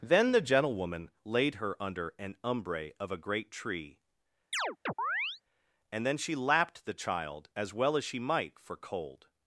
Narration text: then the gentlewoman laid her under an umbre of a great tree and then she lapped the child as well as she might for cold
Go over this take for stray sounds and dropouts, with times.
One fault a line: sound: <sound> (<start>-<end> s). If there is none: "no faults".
sound: chirp (4.5-5.4 s)